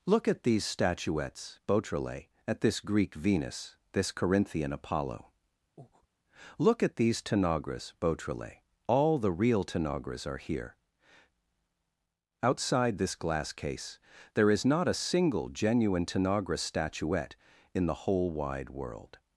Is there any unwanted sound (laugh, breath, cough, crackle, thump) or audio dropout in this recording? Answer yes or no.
yes